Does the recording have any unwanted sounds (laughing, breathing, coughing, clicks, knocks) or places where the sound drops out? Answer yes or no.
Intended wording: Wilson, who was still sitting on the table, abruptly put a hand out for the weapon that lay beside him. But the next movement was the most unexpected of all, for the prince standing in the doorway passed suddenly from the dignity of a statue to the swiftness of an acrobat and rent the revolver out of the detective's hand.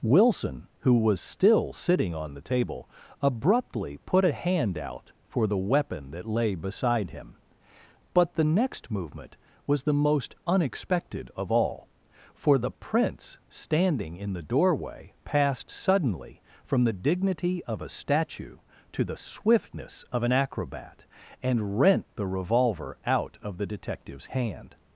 no